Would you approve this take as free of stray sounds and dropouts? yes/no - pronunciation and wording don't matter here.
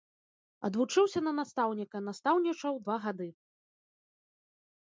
yes